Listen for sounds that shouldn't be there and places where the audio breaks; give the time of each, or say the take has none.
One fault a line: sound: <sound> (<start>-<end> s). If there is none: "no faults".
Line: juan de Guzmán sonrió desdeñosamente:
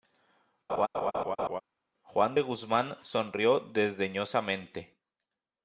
sound: laugh (0.7-1.6 s)